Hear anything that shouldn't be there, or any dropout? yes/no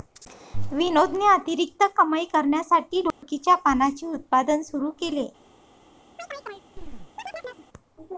yes